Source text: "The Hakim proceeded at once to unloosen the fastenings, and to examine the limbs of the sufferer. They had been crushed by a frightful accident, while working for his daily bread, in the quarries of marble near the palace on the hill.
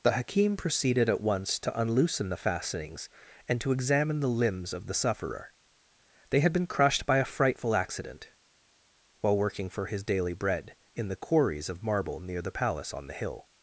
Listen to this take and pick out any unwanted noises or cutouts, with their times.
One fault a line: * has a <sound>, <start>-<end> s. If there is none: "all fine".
all fine